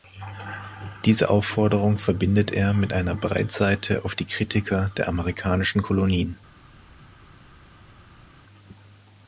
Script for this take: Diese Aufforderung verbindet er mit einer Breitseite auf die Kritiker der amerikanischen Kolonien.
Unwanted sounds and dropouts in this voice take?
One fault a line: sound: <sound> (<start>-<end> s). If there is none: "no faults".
no faults